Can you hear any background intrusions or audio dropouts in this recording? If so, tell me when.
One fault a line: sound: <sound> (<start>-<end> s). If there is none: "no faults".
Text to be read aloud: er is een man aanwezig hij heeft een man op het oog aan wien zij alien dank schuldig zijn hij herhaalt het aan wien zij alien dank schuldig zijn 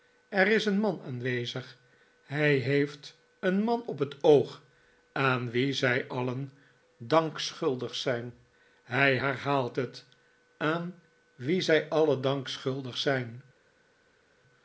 no faults